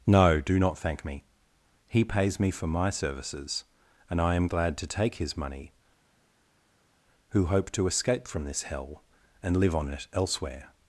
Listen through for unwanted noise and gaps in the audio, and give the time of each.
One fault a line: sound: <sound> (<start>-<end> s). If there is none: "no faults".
no faults